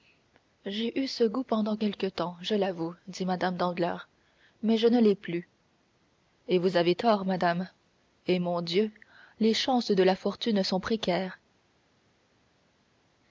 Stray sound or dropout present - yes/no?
no